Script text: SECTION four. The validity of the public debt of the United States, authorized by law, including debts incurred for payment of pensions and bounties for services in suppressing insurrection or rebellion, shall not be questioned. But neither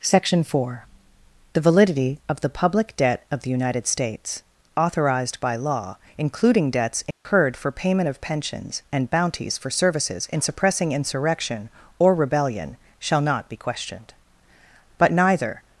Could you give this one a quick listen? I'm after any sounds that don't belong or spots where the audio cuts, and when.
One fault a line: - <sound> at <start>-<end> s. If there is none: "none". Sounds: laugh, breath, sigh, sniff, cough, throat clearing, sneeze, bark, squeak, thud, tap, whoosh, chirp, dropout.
- dropout at 7.1-7.2 s